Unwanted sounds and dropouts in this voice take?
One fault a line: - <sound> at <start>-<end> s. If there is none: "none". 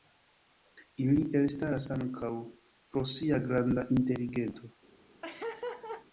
- laugh at 5.2-6.1 s